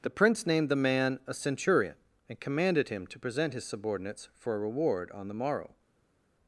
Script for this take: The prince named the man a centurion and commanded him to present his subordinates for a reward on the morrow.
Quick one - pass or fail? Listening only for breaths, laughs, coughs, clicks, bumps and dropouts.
pass